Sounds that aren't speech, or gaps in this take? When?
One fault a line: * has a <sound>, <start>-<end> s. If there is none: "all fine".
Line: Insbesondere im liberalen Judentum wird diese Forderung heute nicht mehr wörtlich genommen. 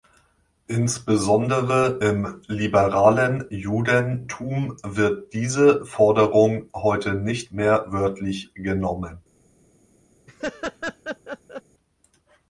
* has a laugh, 10.3-11.6 s